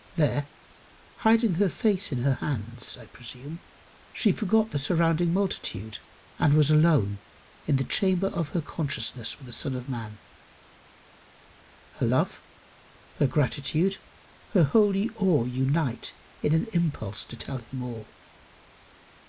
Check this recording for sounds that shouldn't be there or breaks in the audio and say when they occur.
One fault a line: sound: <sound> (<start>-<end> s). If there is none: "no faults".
no faults